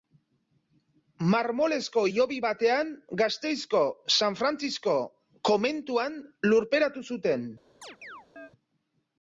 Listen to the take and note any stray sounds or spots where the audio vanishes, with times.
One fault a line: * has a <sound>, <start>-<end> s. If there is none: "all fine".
* has a chirp, 7.8-8.5 s